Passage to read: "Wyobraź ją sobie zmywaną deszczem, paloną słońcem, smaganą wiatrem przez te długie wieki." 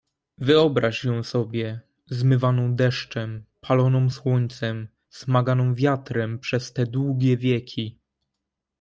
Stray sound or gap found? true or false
false